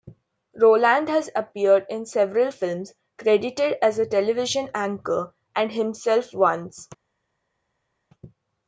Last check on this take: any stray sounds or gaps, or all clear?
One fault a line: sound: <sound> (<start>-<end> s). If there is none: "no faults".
no faults